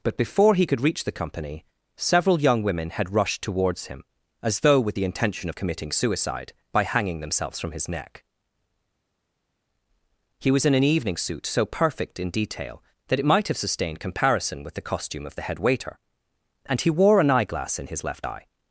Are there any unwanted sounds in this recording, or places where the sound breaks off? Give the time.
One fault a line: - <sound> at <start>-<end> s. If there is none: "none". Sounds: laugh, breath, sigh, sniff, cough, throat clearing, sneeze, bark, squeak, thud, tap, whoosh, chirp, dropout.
none